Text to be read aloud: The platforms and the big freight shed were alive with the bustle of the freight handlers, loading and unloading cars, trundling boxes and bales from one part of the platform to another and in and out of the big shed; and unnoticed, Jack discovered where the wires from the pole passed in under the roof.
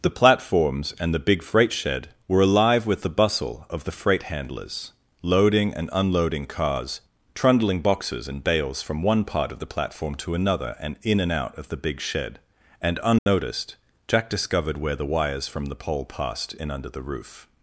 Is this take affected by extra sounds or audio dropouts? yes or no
yes